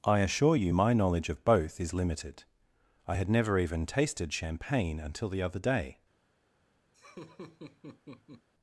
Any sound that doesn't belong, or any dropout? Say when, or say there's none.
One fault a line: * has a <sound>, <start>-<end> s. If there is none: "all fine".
* has a laugh, 6.9-8.5 s